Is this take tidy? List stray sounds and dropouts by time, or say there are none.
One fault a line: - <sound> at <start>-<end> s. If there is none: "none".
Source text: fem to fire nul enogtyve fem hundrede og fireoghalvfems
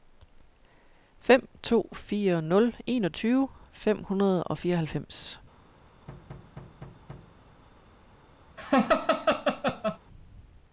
- thud at 6.1-7.4 s
- laugh at 8.6-10.0 s